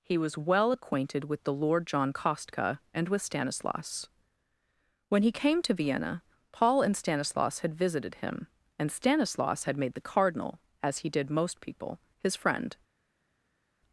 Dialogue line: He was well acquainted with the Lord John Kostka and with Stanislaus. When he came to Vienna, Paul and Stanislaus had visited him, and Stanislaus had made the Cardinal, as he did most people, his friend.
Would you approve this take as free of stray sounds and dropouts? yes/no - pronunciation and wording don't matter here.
yes